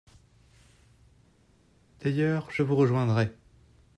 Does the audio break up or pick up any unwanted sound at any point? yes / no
no